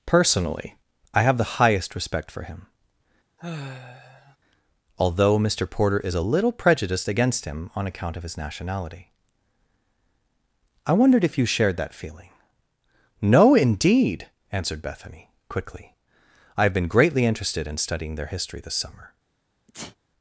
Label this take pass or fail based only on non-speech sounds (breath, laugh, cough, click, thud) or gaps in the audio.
fail